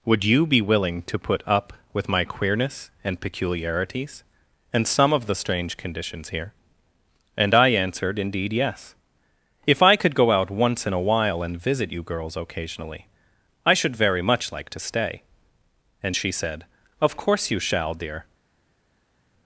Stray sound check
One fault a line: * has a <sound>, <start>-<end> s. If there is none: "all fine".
all fine